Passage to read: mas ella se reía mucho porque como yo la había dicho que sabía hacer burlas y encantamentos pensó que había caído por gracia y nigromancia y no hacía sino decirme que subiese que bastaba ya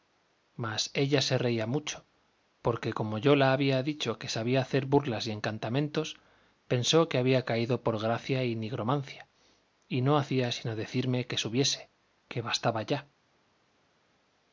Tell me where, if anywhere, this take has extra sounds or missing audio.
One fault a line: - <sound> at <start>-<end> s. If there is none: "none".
none